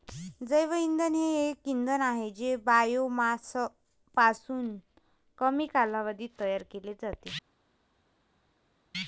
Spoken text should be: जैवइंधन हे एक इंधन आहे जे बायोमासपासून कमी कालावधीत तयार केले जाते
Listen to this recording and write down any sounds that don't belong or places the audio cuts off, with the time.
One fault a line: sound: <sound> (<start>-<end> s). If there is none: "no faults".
no faults